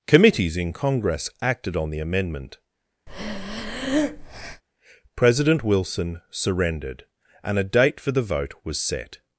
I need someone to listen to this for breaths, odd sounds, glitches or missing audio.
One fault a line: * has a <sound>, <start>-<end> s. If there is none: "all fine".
* has a breath, 3.1-4.6 s